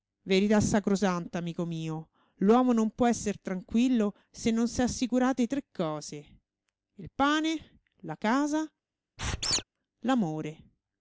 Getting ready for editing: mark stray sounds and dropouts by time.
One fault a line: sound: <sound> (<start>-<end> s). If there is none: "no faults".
sound: squeak (9.2-9.6 s)